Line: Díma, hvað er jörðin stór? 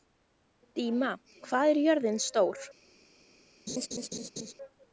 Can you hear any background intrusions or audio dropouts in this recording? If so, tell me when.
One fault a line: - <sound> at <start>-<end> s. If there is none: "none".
- laugh at 3.7-4.5 s